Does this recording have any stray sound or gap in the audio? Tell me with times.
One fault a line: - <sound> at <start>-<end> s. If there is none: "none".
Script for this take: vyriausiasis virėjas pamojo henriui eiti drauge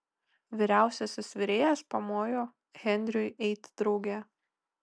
none